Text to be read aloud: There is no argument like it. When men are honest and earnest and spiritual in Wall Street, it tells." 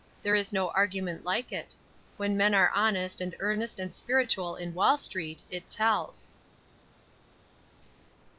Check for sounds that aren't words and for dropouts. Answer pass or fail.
pass